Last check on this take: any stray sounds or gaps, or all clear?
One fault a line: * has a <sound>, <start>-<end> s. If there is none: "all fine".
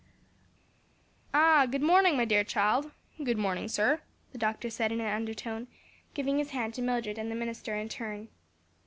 all fine